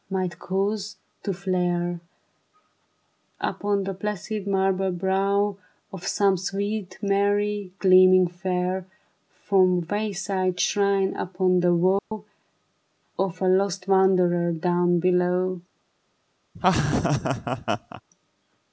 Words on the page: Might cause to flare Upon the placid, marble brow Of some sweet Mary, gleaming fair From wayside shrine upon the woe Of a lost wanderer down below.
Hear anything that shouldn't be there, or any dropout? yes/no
yes